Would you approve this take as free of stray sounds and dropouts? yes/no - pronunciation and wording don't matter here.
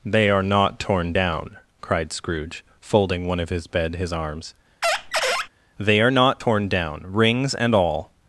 no